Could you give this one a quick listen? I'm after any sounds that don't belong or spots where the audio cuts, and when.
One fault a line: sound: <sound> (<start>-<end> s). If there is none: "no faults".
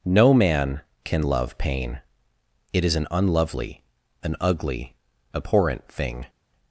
no faults